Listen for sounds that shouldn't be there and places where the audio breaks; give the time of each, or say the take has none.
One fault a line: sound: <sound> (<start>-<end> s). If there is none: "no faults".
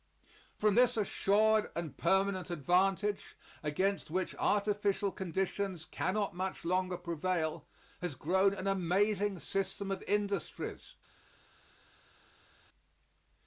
no faults